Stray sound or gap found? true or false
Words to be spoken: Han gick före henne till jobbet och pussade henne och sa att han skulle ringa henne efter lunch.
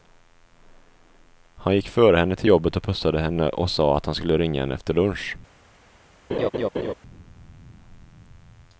true